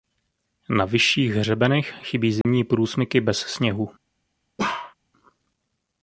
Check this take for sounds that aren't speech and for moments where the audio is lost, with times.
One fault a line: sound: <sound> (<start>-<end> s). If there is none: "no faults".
sound: dropout (2.4-2.4 s)
sound: bark (4.6-4.9 s)